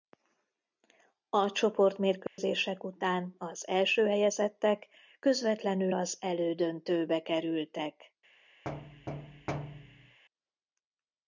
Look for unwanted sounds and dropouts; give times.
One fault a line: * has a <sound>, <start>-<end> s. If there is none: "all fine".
* has a dropout, 2.3-2.4 s
* has a thud, 8.6-10.2 s